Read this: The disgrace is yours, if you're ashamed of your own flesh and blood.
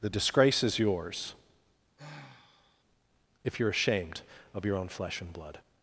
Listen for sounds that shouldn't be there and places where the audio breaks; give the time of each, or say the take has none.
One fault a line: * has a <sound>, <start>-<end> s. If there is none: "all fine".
* has a sigh, 2.0-2.8 s